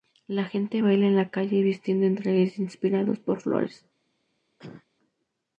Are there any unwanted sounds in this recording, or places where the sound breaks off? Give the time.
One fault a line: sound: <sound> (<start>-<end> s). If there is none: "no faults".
sound: cough (4.6-4.9 s)